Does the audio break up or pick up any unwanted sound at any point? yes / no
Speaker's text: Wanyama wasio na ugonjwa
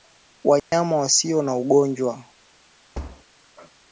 yes